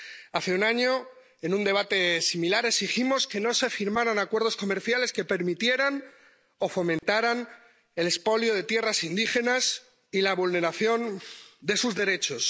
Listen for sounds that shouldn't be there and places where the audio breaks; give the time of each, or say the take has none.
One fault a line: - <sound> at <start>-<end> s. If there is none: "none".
- dropout at 7.0-7.0 s